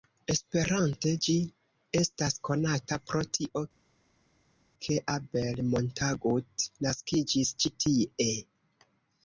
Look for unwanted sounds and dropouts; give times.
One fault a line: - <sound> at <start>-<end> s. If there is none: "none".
none